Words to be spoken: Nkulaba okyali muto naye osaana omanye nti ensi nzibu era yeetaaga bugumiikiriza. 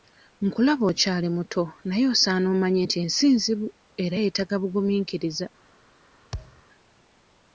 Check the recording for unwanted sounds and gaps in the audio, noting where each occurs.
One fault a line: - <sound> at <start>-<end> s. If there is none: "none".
- thud at 6.3-6.6 s